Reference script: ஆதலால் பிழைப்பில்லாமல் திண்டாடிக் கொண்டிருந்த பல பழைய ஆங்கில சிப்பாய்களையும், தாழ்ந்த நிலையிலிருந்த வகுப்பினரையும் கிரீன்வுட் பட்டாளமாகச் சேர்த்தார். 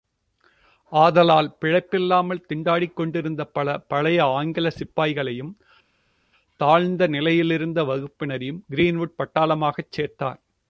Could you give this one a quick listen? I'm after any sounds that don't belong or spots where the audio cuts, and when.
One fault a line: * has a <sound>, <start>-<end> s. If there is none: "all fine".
all fine